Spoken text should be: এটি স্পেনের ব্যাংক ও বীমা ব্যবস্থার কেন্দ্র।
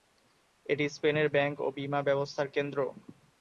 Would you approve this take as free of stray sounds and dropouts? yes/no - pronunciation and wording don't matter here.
yes